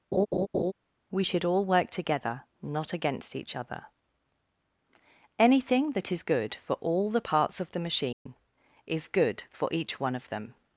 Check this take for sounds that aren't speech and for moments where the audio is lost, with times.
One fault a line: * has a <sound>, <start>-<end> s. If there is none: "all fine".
* has a laugh, 0.1-0.7 s
* has a dropout, 8.1-8.3 s